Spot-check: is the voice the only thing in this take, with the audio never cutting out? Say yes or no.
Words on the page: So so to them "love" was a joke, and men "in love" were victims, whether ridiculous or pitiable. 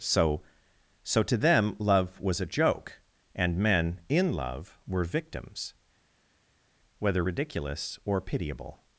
yes